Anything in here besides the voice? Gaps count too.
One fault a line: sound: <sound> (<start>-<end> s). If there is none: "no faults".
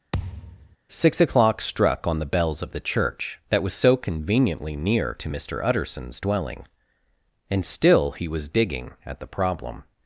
sound: thud (0.1-0.8 s)